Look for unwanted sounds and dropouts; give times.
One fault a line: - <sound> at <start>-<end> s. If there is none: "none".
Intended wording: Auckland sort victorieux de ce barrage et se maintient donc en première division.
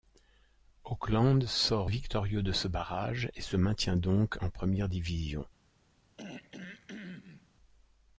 - throat clearing at 6.2-7.5 s